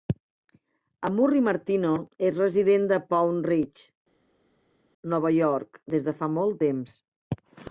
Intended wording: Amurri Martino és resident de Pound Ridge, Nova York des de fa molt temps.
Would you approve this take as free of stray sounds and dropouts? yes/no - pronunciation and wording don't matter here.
yes